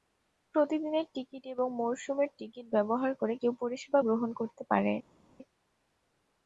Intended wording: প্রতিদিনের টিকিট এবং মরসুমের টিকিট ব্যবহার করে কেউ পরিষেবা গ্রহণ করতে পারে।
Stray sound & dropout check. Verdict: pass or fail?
pass